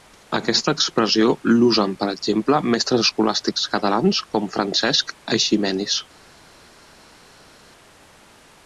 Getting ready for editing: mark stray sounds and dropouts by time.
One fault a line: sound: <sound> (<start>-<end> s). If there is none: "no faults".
no faults